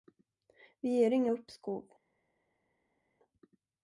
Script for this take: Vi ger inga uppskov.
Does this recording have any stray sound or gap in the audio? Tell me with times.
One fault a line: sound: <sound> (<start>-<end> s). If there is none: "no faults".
no faults